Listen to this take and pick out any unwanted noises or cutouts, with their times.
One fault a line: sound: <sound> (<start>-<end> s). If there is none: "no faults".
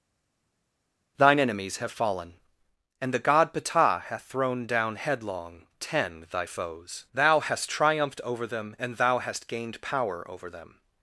no faults